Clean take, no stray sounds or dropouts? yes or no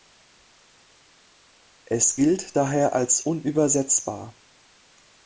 yes